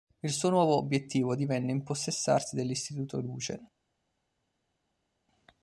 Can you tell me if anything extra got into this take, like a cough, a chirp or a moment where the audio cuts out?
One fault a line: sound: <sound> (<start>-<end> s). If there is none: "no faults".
no faults